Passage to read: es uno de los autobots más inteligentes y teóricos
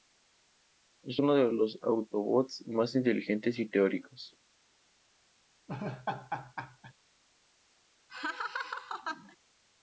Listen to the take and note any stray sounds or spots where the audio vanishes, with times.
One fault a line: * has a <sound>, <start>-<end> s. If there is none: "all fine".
* has a laugh, 5.7-6.9 s
* has a laugh, 8.1-9.4 s